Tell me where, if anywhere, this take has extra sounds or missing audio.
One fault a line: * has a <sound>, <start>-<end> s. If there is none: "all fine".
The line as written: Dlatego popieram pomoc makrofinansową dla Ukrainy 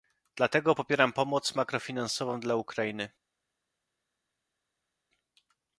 all fine